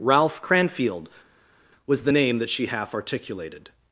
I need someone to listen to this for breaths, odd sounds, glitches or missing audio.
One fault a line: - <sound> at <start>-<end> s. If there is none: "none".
none